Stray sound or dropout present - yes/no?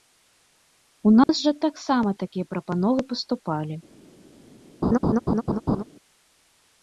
yes